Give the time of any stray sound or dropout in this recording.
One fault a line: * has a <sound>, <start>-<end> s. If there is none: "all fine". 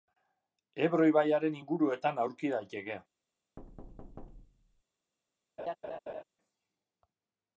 * has a thud, 3.6-4.8 s
* has a laugh, 5.6-6.2 s